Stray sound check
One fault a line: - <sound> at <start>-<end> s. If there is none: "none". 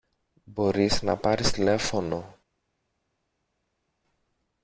none